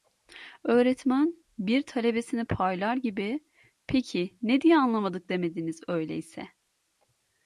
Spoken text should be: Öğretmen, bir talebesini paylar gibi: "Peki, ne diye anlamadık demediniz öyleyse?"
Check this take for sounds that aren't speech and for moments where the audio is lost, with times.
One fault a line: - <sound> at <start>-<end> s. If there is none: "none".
none